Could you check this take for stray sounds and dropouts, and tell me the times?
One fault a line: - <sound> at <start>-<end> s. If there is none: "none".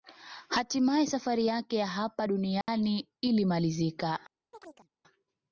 - dropout at 2.6-2.7 s
- chirp at 4.5-4.9 s